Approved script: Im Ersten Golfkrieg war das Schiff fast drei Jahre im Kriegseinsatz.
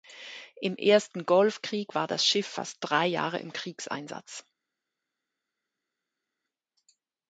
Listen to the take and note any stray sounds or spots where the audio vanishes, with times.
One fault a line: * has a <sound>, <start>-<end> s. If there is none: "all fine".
all fine